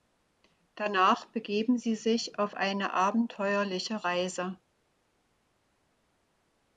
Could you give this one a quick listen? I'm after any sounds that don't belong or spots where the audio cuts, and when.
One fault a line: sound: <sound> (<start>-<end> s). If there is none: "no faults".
no faults